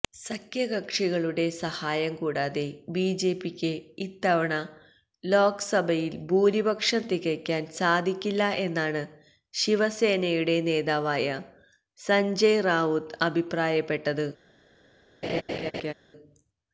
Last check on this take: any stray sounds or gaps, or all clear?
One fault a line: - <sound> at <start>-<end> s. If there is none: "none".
- laugh at 15.2-15.9 s